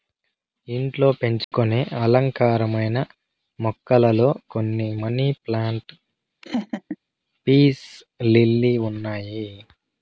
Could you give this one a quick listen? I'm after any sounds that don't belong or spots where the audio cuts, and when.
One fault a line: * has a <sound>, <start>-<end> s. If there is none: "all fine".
* has a dropout, 1.4-1.5 s
* has a laugh, 6.4-7.0 s